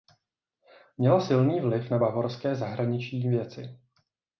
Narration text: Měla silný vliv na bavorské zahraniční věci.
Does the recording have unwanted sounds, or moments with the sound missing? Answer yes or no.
no